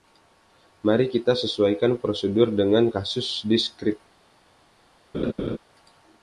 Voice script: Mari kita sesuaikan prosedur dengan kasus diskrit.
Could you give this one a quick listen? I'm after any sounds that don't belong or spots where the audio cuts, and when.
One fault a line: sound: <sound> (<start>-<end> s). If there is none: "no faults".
sound: laugh (5.1-5.6 s)